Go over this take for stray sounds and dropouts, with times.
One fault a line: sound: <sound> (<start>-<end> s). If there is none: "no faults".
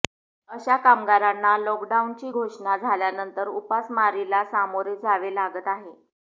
no faults